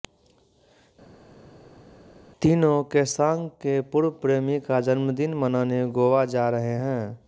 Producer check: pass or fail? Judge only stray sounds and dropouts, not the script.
pass